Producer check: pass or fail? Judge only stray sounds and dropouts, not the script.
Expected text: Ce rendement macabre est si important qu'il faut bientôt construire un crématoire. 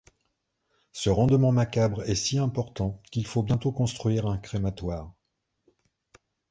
pass